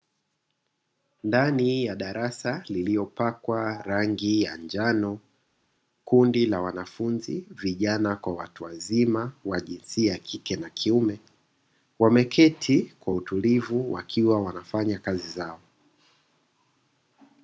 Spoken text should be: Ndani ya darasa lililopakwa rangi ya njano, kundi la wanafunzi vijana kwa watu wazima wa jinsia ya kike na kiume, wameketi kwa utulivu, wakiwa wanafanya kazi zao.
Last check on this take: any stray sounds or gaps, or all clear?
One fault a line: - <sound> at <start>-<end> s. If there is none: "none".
none